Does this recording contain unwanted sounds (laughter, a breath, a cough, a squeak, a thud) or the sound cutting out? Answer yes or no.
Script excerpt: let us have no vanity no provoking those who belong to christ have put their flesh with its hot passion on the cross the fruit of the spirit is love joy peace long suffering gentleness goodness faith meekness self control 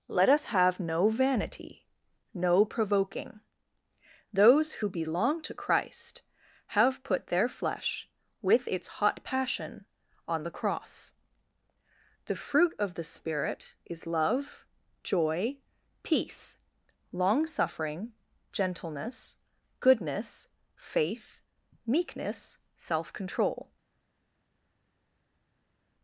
no